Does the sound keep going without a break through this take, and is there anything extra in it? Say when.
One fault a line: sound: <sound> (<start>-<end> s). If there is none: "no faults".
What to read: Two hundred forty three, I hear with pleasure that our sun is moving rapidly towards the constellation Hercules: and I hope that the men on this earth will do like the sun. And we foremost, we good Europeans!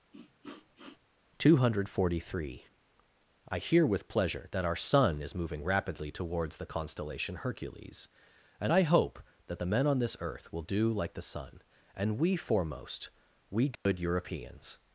sound: sniff (0.1-1.0 s)
sound: dropout (13.8-13.9 s)